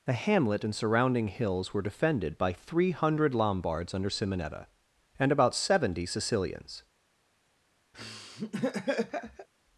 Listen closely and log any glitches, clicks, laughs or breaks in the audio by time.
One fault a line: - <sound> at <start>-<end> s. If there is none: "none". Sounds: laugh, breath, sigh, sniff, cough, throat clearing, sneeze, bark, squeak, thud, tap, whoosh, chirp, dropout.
- laugh at 7.9-9.5 s